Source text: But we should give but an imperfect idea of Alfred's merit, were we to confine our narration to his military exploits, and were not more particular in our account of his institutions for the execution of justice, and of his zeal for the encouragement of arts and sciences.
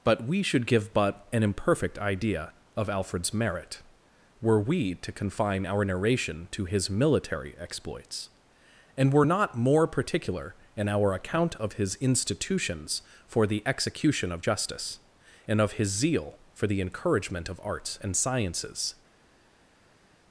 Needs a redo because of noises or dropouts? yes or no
no